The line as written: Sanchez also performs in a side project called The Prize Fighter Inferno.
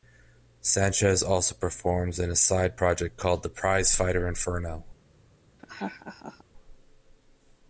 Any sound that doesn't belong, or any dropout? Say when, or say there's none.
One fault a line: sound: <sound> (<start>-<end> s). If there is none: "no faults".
sound: laugh (5.6-6.4 s)